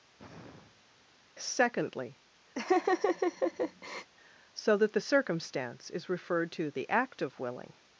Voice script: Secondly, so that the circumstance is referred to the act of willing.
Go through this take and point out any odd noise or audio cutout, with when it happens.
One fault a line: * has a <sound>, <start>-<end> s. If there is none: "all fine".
* has a sigh, 0.2-0.9 s
* has a laugh, 2.5-4.1 s